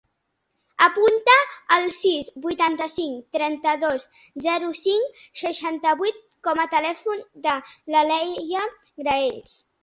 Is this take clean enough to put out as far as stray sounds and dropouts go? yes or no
yes